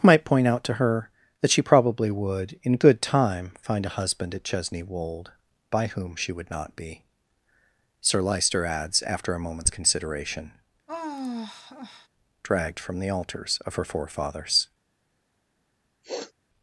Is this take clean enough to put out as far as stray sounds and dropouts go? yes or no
no